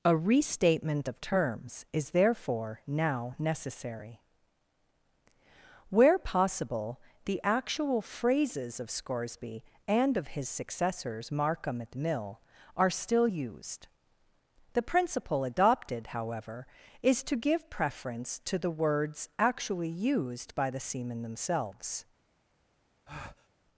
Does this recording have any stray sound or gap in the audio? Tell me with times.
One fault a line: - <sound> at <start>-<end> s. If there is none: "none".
- breath at 23.1-23.5 s